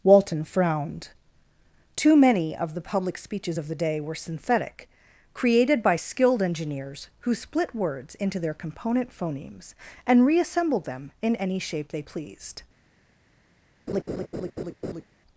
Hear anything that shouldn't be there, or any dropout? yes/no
yes